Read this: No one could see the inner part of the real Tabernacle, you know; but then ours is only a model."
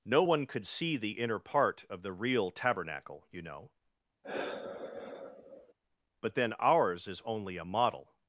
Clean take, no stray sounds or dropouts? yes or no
no